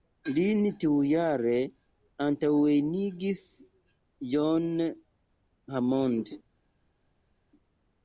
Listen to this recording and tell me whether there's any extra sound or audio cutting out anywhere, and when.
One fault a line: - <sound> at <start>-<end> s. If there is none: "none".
none